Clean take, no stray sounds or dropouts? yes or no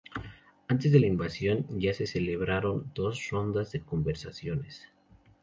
yes